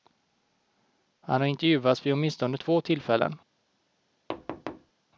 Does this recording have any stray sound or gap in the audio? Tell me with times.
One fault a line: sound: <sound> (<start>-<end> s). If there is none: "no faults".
sound: thud (4.3-4.9 s)